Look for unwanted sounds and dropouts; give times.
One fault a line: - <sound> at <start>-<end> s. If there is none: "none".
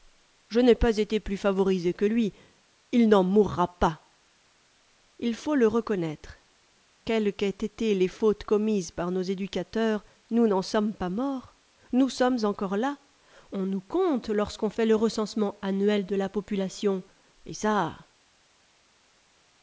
none